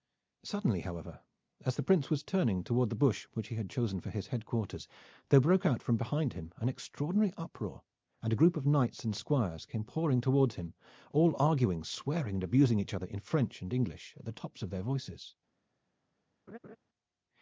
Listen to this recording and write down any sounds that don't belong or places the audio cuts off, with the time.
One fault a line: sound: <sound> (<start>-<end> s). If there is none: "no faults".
sound: laugh (16.5-16.8 s)